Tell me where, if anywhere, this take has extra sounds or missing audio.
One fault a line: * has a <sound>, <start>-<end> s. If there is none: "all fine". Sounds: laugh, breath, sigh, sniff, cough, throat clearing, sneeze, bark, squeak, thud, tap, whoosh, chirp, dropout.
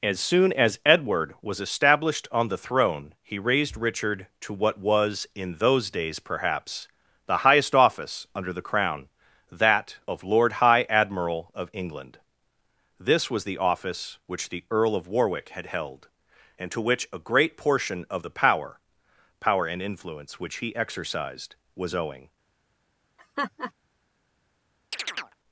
* has a laugh, 23.2-23.7 s
* has a chirp, 24.9-25.4 s